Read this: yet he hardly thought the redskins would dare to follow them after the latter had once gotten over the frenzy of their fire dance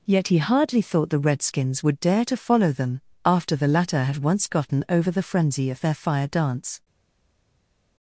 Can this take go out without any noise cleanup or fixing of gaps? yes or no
yes